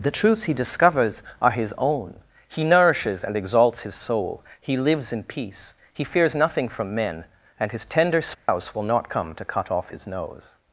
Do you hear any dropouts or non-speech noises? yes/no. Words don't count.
yes